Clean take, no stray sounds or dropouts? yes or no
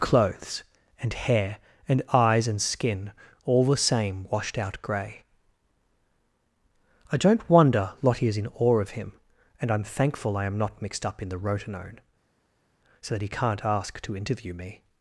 yes